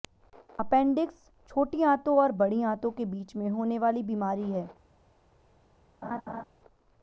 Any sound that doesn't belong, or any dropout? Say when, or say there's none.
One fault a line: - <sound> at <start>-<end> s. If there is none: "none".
- laugh at 6.0-6.4 s